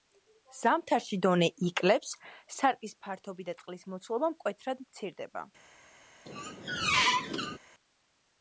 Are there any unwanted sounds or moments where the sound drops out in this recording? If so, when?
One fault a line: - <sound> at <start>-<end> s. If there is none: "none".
- squeak at 6.3-7.6 s